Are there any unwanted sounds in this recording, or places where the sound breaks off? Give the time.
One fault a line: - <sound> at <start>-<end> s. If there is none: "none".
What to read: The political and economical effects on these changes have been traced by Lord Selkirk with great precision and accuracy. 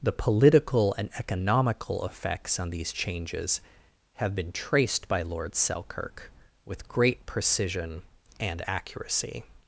none